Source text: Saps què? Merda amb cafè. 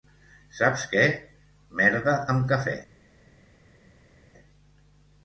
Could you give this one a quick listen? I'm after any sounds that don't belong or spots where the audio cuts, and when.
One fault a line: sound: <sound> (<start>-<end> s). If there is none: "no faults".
no faults